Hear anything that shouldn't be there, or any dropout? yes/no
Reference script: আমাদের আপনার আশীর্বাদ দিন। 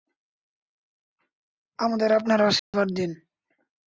yes